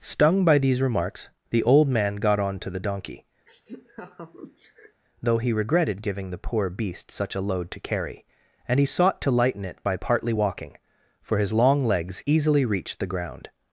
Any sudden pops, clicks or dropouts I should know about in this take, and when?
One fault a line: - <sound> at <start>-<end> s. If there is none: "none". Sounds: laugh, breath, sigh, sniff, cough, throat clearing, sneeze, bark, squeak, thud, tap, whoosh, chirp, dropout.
- laugh at 3.5-5.0 s